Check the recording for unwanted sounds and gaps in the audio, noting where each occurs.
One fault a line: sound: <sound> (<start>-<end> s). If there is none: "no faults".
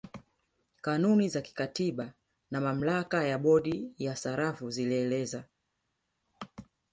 no faults